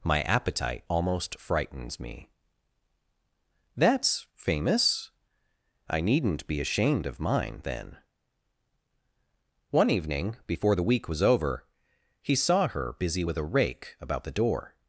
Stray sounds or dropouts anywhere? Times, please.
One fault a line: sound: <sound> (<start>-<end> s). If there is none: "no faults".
no faults